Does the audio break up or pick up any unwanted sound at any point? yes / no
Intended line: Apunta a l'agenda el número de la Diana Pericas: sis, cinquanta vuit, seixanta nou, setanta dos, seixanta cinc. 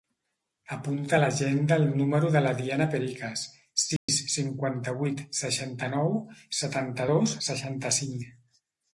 yes